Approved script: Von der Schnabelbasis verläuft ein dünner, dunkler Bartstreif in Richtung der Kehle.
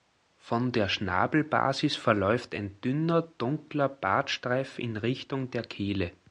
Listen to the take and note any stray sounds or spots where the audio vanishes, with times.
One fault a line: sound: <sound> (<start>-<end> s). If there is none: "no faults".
no faults